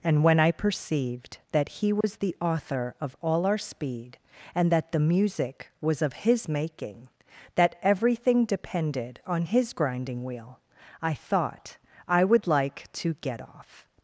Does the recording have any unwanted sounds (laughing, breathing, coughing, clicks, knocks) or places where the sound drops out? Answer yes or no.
yes